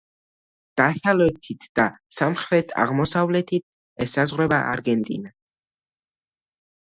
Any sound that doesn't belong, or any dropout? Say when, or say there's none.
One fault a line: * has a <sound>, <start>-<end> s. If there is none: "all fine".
all fine